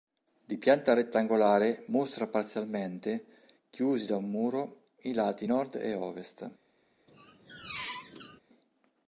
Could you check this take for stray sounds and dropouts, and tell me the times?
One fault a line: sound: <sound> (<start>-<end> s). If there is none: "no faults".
sound: squeak (7.1-8.4 s)